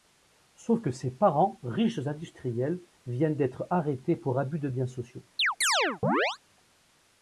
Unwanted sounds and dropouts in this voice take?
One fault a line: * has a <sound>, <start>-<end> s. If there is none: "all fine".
* has a chirp, 5.4-6.4 s